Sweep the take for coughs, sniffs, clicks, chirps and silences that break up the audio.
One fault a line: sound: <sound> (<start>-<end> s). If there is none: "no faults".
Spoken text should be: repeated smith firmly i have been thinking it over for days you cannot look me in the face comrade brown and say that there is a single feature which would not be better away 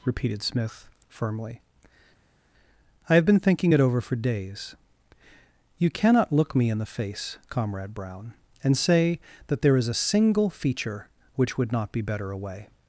no faults